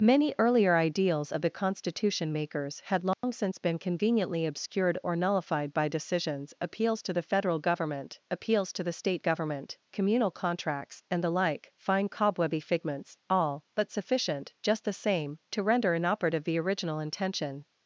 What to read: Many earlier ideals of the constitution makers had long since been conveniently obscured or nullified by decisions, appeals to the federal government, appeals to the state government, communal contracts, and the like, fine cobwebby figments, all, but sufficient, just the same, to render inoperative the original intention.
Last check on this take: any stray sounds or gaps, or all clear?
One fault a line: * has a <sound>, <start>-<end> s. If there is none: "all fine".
* has a dropout, 3.1-3.2 s